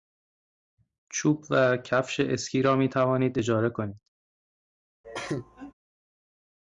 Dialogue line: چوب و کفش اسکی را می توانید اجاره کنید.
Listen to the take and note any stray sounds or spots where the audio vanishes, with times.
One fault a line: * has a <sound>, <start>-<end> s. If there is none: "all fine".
* has a cough, 5.0-5.7 s